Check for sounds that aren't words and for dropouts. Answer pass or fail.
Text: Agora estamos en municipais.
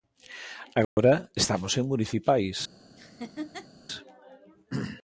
fail